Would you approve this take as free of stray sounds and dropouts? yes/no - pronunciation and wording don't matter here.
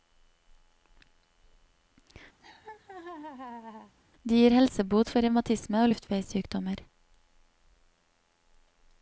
no